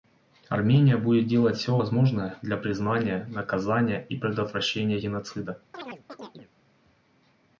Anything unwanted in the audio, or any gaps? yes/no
yes